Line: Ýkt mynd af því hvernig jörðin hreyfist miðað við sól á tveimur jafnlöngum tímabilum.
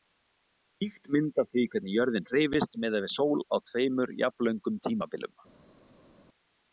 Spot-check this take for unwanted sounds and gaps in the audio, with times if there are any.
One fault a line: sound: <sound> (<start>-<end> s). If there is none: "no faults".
no faults